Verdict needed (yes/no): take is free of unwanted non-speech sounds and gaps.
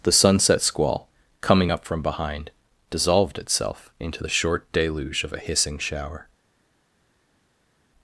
yes